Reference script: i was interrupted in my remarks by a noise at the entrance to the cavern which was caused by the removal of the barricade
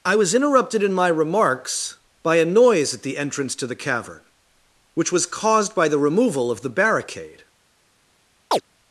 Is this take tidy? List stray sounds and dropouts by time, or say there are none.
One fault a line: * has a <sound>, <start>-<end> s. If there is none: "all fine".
* has a chirp, 8.5-8.6 s